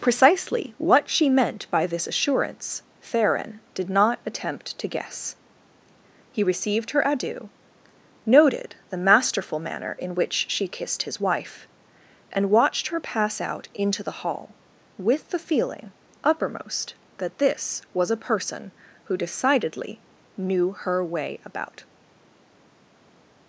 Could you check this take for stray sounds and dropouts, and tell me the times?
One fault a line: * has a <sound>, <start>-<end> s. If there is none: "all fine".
all fine